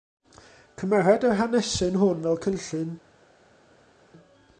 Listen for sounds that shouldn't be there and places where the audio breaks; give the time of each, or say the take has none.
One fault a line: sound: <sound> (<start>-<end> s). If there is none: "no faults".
no faults